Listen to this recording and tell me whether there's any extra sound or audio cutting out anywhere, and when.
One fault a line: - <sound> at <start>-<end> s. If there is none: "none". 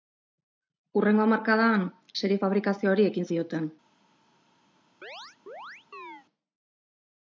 - chirp at 5.0-6.3 s